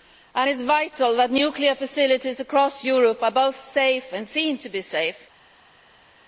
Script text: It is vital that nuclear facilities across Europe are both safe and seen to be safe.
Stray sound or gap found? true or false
false